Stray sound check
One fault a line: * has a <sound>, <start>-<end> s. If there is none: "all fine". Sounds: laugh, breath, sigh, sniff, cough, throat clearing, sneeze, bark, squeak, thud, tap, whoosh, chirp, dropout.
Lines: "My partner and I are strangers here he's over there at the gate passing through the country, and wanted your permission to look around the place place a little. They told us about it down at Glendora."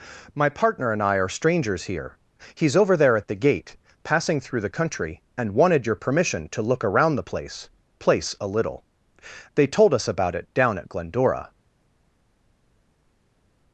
all fine